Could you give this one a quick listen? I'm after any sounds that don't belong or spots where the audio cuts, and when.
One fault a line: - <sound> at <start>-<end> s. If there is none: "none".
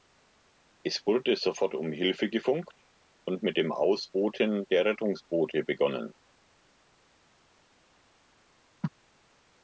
none